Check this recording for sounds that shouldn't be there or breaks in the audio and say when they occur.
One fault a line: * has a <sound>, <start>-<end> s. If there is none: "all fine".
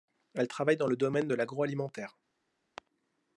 all fine